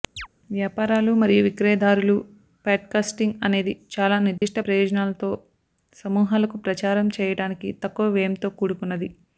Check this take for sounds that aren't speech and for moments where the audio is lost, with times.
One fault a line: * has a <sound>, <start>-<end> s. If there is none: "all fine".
* has a chirp, 0.2-0.3 s
* has a dropout, 4.4-4.4 s